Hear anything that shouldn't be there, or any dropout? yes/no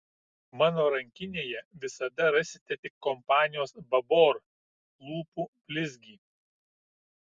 no